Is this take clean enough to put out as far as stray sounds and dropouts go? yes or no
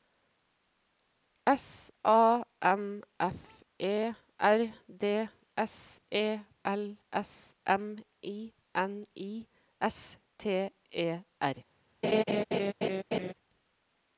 no